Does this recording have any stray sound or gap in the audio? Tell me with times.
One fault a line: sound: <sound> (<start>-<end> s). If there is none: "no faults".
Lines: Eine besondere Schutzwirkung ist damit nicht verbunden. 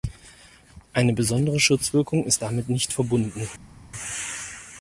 no faults